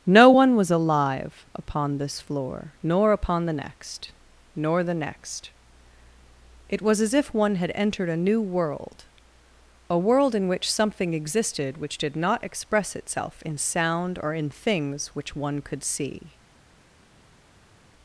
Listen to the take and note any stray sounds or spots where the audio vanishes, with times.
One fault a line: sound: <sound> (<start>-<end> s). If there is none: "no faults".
no faults